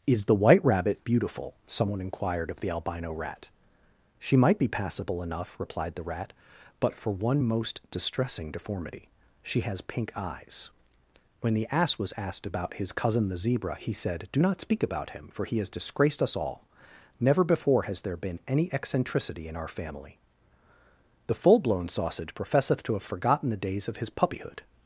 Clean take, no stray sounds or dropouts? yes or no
yes